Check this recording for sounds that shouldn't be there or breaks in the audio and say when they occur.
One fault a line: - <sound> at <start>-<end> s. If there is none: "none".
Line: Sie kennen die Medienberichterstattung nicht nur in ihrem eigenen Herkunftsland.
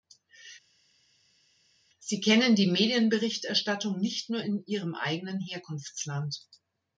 none